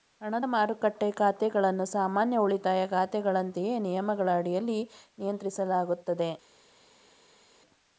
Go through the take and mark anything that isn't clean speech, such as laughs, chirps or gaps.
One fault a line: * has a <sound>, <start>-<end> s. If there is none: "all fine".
all fine